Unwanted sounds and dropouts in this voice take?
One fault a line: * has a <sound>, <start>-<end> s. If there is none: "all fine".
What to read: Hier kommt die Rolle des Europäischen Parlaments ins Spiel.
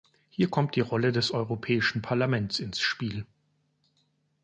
all fine